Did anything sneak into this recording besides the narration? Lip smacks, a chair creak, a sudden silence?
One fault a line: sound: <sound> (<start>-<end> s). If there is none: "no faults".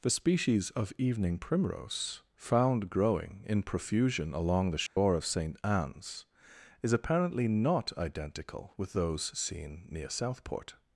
sound: dropout (4.9-5.0 s)